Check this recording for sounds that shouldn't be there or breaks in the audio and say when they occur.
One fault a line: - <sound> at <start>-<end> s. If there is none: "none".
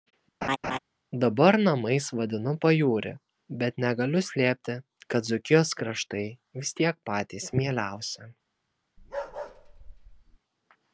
- laugh at 0.4-0.8 s
- bark at 9.0-10.4 s